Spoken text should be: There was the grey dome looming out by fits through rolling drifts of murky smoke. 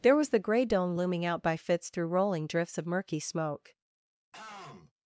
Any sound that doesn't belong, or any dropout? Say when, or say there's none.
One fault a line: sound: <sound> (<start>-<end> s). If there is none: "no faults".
sound: throat clearing (4.3-4.9 s)